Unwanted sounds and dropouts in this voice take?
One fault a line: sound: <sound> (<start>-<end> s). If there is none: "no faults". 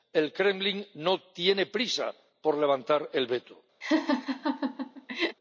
sound: laugh (3.8-5.4 s)